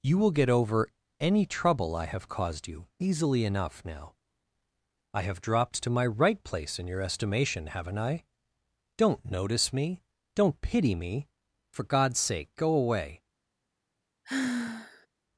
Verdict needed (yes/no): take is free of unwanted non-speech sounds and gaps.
no